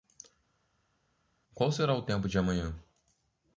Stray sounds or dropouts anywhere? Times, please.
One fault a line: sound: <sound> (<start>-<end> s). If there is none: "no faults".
no faults